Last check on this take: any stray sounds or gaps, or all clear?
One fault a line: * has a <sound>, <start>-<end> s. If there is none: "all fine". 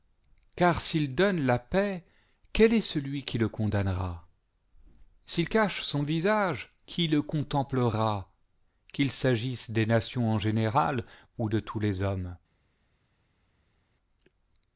all fine